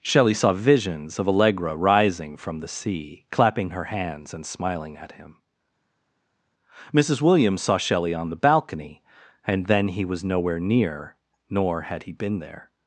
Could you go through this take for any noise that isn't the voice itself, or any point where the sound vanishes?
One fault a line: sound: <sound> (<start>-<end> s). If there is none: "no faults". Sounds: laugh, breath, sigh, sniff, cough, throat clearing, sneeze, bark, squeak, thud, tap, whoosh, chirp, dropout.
no faults